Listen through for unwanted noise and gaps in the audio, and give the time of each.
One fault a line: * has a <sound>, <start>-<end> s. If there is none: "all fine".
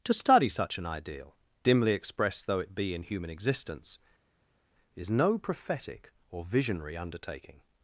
all fine